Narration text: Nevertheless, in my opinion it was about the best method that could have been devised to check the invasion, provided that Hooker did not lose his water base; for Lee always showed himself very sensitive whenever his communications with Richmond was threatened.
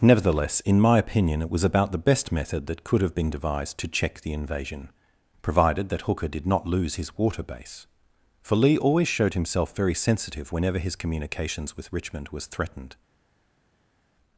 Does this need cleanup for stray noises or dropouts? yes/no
no